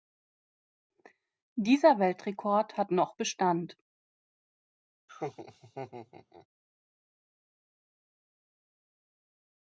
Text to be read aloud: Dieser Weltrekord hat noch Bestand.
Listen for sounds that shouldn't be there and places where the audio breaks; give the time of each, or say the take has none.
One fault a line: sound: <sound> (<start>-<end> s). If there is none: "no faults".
sound: laugh (5.1-6.5 s)